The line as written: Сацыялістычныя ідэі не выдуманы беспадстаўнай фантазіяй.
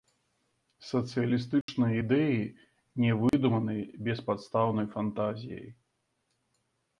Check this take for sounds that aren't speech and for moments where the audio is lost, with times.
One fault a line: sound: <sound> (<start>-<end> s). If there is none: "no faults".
sound: dropout (1.6-1.7 s)
sound: dropout (3.3-3.3 s)